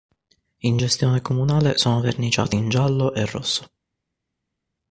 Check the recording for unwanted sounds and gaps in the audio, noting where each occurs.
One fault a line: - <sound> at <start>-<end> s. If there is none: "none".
none